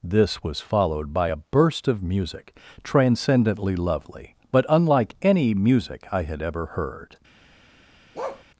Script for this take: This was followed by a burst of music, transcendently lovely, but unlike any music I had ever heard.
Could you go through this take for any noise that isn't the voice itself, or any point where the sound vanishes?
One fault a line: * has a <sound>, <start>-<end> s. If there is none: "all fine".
* has a bark, 8.1-8.4 s